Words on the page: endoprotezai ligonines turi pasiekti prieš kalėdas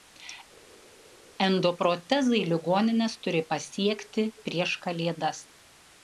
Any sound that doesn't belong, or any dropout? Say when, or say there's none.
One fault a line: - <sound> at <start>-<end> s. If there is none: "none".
none